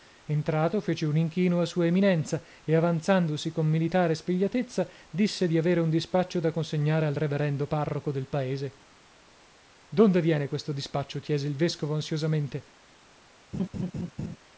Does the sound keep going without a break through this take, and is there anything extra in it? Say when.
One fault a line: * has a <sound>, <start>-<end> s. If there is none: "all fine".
* has a laugh, 13.5-14.4 s